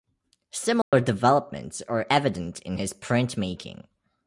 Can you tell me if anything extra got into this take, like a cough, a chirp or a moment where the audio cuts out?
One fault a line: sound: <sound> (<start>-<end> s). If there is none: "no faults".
sound: dropout (0.8-0.9 s)